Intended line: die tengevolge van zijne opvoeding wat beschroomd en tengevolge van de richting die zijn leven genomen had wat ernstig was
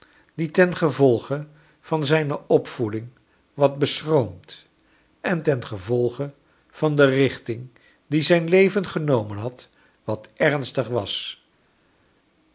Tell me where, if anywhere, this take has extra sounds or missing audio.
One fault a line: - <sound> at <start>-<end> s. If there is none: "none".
none